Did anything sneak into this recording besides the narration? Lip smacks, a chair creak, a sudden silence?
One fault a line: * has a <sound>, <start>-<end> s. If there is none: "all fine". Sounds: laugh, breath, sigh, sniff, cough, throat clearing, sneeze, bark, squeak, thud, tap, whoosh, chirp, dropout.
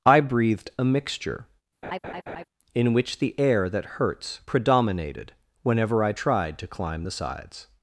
* has a laugh, 1.8-2.4 s